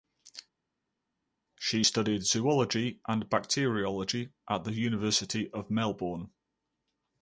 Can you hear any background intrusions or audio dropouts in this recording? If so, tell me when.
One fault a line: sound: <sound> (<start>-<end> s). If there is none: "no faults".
no faults